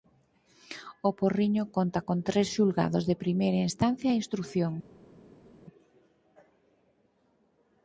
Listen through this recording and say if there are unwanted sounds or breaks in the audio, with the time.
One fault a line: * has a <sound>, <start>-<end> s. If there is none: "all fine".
all fine